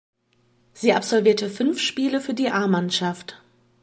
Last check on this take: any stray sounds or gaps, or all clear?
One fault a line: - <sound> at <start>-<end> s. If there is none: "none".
none